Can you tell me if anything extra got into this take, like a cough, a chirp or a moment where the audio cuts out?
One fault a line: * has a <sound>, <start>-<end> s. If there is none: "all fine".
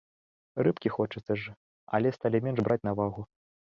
all fine